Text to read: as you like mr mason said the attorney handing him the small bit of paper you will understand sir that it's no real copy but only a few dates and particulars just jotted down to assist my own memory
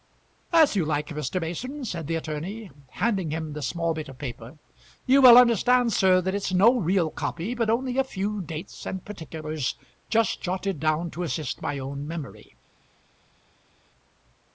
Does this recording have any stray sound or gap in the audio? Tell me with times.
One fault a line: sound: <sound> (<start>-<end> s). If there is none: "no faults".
no faults